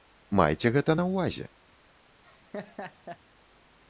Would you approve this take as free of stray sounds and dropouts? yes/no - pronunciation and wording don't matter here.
no